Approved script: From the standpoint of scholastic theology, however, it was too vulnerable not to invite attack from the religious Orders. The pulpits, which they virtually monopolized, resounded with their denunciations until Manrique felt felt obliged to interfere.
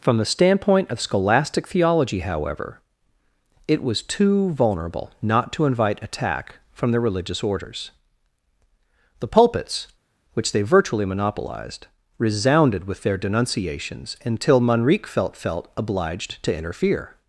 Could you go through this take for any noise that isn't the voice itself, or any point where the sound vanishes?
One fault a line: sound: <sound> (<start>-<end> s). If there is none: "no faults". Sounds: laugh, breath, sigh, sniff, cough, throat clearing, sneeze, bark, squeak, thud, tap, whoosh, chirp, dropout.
no faults